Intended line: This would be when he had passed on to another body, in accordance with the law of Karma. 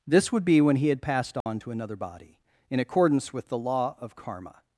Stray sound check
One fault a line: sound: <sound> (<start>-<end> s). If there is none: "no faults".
sound: dropout (1.4-1.5 s)